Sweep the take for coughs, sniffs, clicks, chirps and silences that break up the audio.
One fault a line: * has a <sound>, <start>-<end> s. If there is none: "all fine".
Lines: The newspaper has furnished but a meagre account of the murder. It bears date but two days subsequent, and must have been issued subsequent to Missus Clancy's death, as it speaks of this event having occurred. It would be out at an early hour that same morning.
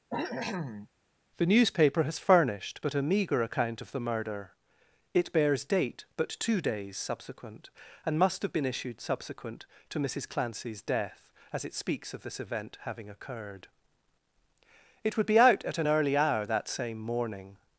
* has a cough, 0.1-0.9 s